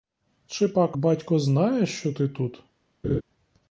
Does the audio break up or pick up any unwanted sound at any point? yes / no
yes